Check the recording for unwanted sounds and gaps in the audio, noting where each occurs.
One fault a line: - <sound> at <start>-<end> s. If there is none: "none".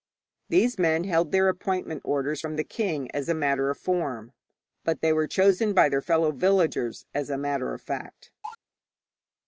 - cough at 8.4-8.6 s